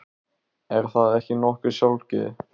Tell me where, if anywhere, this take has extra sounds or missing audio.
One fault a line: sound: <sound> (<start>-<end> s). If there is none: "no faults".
no faults